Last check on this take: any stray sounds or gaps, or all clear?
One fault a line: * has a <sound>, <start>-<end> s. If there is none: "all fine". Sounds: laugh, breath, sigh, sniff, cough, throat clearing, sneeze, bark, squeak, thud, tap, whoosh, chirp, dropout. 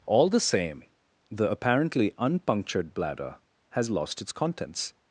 all fine